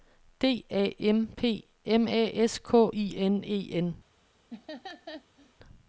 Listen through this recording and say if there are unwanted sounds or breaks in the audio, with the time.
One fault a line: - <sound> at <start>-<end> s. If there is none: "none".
- laugh at 4.5-5.5 s